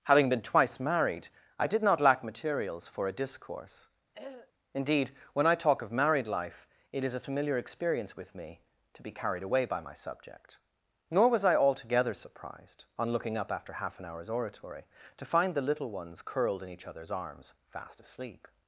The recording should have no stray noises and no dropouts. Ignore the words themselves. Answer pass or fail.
fail